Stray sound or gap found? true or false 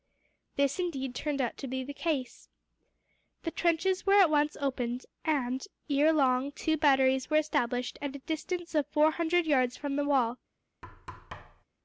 true